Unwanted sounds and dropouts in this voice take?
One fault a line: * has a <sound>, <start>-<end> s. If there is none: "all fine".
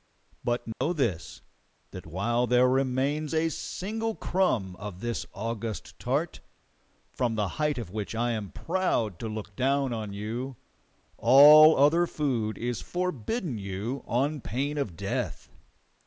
* has a dropout, 0.7-0.8 s